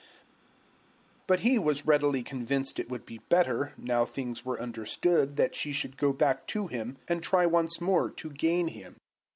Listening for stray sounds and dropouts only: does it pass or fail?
pass